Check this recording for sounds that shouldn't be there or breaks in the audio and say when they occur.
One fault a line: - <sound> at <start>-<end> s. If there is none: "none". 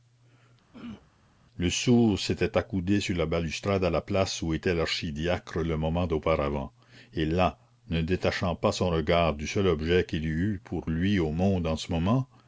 - throat clearing at 0.7-1.1 s